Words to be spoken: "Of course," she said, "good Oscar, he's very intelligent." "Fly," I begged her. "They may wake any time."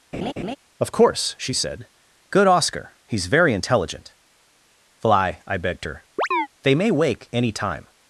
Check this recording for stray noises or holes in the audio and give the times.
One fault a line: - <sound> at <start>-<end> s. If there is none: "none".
- laugh at 0.1-0.6 s
- chirp at 6.2-6.5 s